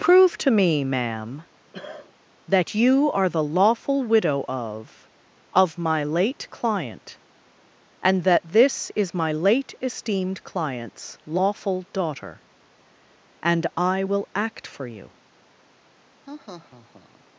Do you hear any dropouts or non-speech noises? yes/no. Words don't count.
yes